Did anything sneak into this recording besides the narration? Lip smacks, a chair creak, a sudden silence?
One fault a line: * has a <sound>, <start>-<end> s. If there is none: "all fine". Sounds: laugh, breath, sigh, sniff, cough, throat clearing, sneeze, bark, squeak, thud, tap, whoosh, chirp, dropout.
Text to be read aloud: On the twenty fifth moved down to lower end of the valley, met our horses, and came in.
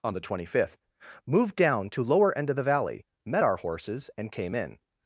all fine